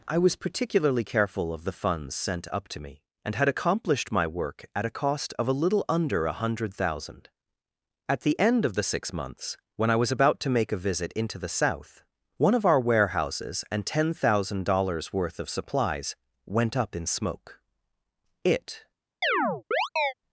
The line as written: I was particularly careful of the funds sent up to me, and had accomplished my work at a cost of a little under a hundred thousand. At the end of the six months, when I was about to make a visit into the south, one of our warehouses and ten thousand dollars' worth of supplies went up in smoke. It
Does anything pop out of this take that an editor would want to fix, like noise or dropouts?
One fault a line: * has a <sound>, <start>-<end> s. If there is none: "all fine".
* has a chirp, 19.2-20.1 s